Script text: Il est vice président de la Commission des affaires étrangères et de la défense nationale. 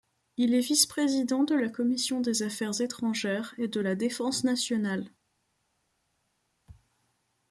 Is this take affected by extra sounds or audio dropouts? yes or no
no